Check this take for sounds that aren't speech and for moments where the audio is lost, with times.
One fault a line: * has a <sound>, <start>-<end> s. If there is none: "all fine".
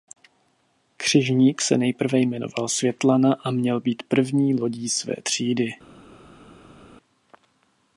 all fine